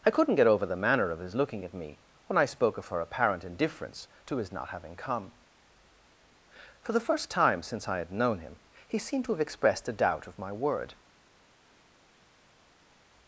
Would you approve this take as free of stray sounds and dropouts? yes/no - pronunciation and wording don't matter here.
yes